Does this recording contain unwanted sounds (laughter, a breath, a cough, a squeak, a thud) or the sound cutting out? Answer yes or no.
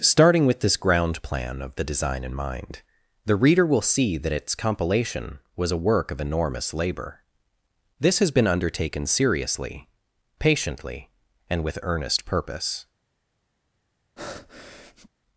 yes